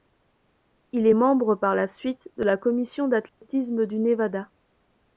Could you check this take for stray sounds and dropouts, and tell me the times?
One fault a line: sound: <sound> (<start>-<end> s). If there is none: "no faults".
sound: dropout (3.3-3.4 s)